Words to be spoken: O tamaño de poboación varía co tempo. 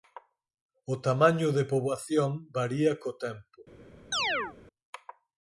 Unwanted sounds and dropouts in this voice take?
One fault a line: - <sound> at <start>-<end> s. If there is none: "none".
- chirp at 4.1-4.6 s